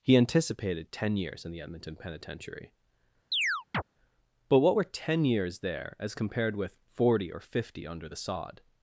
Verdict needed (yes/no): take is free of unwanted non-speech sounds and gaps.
no